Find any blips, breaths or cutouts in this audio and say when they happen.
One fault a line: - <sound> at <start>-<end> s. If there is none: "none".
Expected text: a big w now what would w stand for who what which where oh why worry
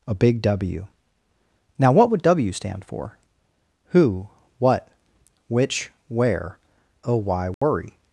- dropout at 7.5-7.6 s